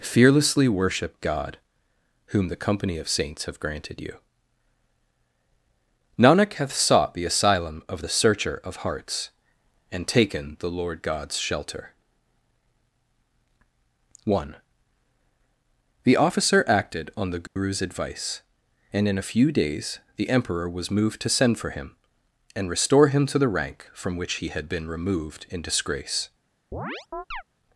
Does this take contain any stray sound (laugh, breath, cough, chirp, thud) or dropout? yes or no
yes